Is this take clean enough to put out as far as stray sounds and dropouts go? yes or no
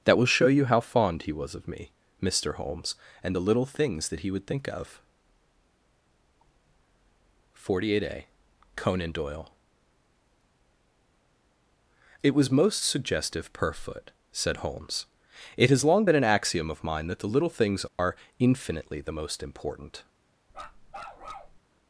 no